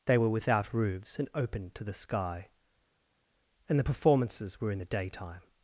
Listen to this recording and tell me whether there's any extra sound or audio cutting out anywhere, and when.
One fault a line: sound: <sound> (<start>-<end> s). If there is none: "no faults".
no faults